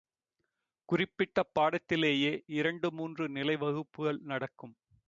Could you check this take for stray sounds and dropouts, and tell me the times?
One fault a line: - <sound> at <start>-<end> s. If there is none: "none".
none